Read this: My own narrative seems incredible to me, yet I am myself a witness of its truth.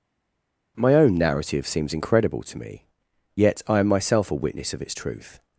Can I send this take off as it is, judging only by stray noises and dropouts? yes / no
yes